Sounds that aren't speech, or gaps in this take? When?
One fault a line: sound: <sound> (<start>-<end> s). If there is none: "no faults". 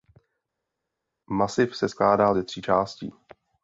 no faults